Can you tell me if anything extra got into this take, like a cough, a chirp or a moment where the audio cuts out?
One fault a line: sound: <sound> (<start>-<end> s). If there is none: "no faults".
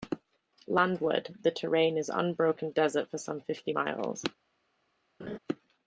sound: laugh (5.2-5.4 s)